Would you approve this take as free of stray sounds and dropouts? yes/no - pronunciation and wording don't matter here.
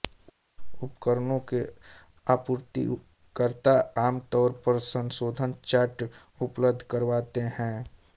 yes